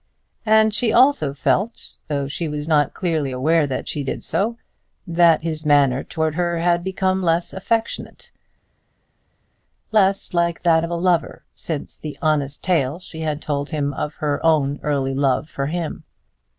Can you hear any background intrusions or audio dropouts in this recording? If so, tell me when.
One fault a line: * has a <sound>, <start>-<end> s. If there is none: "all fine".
all fine